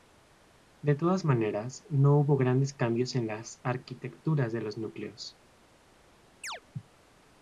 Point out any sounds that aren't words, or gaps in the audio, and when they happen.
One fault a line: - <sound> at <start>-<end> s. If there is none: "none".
- chirp at 6.4-6.6 s